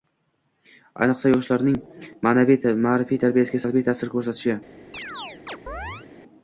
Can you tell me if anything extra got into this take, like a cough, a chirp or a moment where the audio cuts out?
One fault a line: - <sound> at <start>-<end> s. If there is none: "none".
- chirp at 4.9-6.1 s